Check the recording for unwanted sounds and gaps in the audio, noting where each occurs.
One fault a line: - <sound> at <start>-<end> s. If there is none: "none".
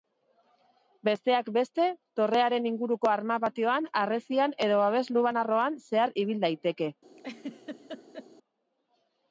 - laugh at 7.2-8.3 s